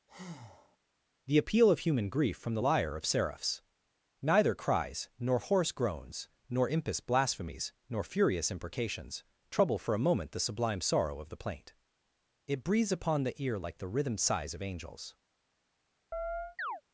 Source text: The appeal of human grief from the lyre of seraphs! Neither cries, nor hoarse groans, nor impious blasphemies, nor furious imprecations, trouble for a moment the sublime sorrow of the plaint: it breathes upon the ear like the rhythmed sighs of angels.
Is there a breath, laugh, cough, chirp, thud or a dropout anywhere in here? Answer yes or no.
yes